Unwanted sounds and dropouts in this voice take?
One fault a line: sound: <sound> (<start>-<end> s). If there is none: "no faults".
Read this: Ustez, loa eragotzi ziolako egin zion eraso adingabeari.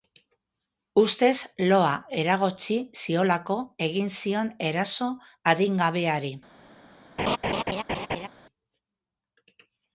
sound: laugh (7.2-8.3 s)